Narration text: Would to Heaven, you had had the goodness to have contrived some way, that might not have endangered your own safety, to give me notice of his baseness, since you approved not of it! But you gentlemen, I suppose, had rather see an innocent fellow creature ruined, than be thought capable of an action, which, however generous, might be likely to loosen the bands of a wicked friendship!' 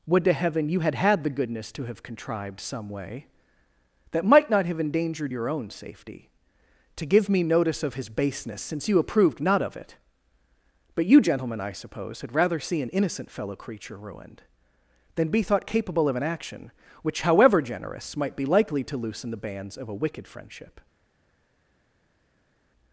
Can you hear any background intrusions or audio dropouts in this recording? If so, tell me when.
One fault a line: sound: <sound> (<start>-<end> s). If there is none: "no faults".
no faults